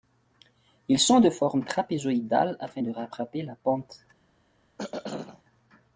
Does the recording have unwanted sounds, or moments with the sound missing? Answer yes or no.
yes